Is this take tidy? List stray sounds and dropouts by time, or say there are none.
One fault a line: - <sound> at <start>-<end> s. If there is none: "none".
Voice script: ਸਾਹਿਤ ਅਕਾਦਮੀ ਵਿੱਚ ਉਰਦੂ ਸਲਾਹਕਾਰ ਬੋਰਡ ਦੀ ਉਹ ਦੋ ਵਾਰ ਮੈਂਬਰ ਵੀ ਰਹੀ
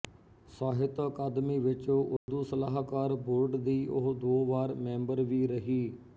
- dropout at 2.2-2.3 s